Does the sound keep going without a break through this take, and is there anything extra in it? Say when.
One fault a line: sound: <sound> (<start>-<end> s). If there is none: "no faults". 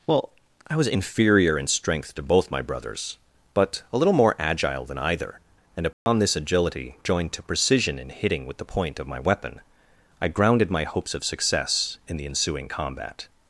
sound: dropout (5.9-6.1 s)